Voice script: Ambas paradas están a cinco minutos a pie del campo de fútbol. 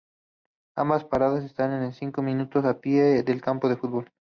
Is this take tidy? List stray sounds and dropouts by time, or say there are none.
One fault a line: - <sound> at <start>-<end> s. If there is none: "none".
none